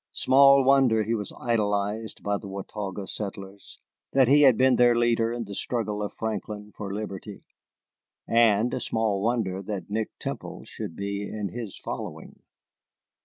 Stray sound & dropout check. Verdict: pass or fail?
pass